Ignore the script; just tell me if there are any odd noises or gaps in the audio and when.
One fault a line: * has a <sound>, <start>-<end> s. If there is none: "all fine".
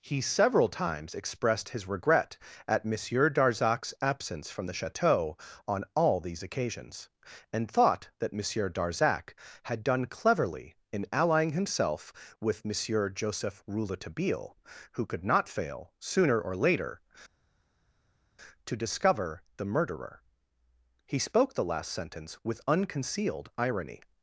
all fine